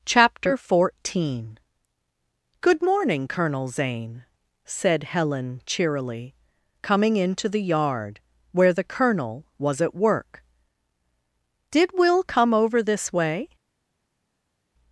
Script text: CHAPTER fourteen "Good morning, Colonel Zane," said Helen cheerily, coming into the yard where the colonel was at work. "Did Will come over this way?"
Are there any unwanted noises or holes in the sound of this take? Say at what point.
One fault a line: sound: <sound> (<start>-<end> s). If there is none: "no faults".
no faults